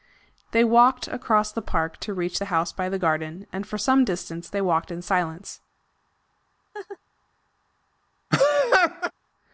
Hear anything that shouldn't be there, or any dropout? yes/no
yes